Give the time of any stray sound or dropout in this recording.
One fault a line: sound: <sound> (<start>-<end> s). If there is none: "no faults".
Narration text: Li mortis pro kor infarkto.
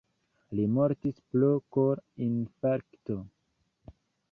no faults